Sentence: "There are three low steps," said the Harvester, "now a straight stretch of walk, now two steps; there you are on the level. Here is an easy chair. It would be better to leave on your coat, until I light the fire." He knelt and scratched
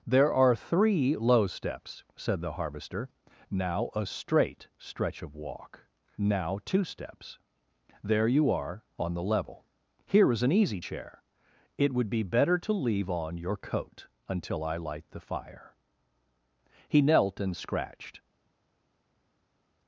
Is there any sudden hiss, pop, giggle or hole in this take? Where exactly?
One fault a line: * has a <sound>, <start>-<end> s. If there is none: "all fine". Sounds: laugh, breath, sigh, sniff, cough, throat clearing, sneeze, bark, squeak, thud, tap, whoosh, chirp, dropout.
all fine